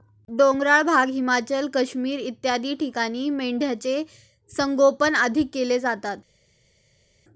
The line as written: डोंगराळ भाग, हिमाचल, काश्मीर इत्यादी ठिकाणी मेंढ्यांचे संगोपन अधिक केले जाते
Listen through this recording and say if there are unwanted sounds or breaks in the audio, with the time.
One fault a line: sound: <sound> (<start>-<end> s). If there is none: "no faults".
no faults